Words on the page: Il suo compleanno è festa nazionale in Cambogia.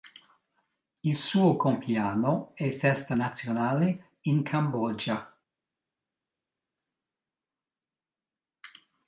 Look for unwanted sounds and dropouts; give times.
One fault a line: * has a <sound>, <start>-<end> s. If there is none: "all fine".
all fine